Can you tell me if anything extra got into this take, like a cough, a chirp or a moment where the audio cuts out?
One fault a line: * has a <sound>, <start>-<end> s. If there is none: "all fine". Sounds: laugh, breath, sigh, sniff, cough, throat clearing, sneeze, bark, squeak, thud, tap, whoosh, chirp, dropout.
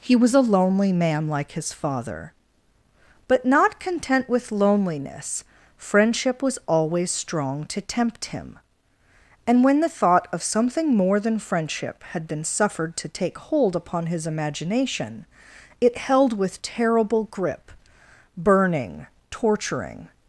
all fine